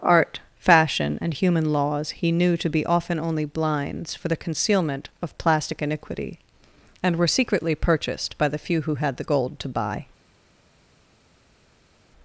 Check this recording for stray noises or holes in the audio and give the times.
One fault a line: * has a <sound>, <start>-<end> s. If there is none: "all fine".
all fine